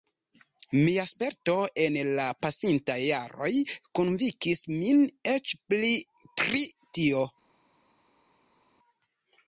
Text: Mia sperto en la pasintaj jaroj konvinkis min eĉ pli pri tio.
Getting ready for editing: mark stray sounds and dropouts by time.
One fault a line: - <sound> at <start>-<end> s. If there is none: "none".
none